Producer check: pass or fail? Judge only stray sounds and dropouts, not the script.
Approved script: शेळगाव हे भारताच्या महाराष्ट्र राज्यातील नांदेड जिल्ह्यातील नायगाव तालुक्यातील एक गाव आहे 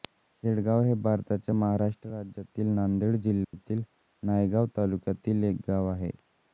fail